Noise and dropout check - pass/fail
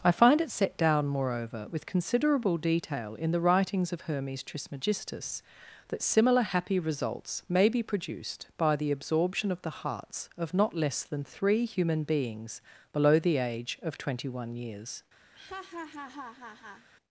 fail